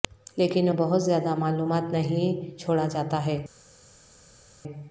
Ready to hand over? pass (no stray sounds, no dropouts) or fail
pass